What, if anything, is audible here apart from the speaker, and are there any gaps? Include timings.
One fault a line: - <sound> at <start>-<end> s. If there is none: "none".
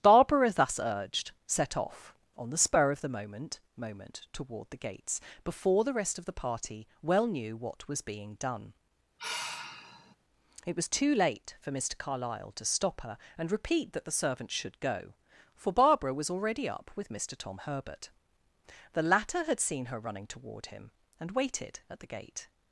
- sigh at 9.2-10.2 s